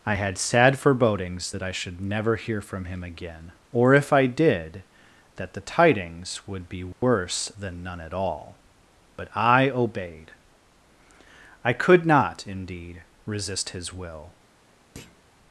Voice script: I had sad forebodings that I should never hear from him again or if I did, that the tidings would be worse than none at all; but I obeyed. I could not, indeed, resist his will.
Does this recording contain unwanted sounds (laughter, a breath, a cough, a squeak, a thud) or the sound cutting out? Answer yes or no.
yes